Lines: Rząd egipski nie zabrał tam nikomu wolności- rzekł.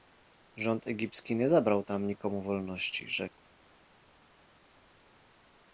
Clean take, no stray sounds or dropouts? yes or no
yes